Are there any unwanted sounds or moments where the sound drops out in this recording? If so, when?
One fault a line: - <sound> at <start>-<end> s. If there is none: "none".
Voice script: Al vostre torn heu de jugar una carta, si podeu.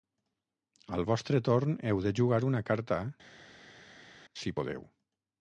none